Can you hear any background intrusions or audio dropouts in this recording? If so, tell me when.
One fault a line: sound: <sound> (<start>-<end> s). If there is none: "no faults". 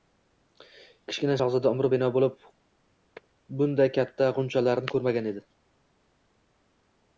no faults